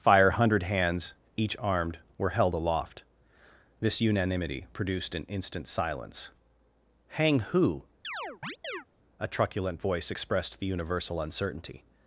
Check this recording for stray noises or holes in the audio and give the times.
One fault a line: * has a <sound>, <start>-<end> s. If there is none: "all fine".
* has a chirp, 8.0-8.9 s